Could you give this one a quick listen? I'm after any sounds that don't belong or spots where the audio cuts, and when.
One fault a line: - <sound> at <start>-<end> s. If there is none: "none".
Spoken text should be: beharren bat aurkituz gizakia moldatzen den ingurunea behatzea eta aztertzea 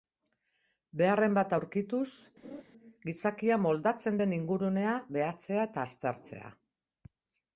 - laugh at 2.4-2.6 s